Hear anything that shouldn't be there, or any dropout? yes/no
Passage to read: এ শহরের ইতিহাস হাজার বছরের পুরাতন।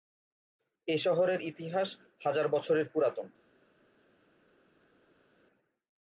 no